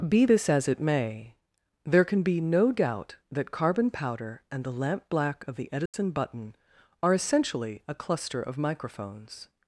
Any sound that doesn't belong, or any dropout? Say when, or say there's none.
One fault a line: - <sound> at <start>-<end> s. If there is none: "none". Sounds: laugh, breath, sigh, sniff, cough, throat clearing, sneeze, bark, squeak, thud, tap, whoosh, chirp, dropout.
- dropout at 5.9-5.9 s